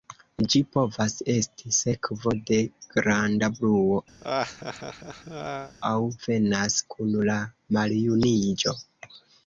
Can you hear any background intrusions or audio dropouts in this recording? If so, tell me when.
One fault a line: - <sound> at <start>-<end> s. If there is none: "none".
- laugh at 4.2-5.8 s